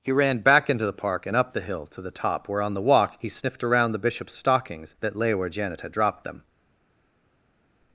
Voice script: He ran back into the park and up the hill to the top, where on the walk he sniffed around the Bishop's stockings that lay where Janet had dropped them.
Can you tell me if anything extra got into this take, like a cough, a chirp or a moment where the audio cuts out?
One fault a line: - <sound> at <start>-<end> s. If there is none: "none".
none